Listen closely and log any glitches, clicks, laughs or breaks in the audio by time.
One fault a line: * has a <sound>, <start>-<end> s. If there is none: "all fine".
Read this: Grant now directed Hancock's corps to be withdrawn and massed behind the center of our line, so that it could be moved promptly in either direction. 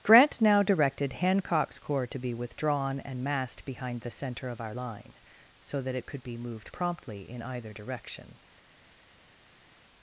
all fine